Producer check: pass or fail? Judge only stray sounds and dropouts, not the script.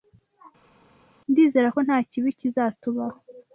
pass